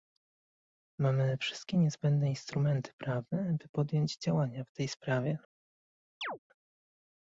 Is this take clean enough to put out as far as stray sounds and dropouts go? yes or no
no